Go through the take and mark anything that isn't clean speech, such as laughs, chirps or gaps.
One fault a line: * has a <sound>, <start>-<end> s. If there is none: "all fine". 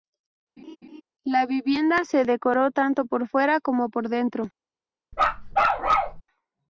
* has a laugh, 0.6-1.0 s
* has a bark, 5.1-6.2 s